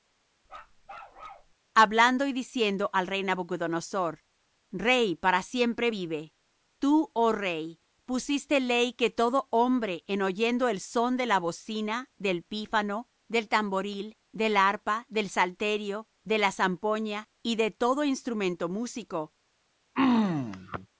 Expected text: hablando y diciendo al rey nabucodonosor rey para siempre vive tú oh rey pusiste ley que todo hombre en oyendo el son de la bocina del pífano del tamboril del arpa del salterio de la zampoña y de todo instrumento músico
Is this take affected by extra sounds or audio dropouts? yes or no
yes